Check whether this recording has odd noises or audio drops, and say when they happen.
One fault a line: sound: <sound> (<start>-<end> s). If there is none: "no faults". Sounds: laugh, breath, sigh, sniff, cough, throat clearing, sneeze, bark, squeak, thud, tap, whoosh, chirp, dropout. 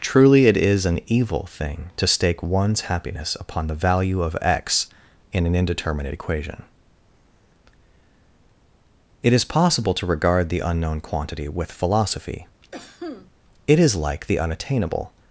sound: cough (12.7-13.3 s)